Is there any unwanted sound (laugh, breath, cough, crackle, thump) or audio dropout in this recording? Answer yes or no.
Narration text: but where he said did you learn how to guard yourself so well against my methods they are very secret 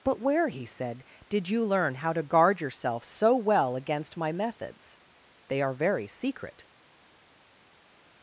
no